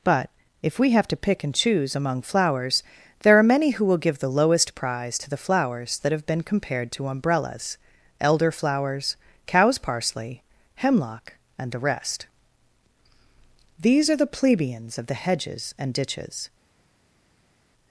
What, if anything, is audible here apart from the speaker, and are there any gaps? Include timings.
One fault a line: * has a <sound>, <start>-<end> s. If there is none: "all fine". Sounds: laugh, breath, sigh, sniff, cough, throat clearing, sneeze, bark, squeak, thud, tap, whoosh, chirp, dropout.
all fine